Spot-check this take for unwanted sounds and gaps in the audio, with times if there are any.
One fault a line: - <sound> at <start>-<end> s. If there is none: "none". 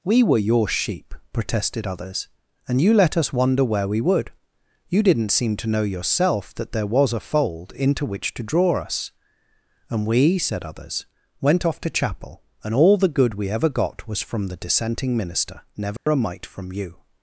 - dropout at 16.0-16.1 s